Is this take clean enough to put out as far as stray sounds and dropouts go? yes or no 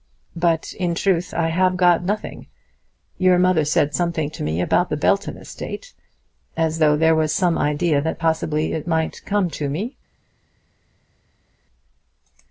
yes